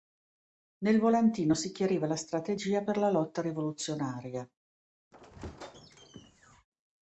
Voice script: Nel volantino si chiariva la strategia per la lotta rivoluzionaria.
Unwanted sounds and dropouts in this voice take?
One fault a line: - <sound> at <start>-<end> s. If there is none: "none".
- squeak at 5.1-6.7 s